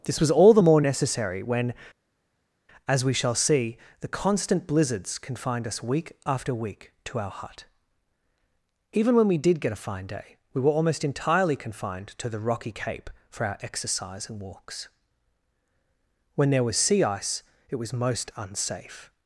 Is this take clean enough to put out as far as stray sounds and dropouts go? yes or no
yes